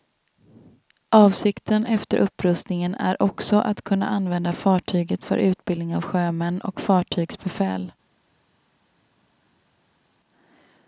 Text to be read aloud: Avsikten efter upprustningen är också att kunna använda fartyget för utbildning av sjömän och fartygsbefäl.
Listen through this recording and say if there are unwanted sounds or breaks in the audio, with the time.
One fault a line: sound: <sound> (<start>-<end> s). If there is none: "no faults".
no faults